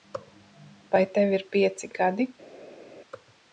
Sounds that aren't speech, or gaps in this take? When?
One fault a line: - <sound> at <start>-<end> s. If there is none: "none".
none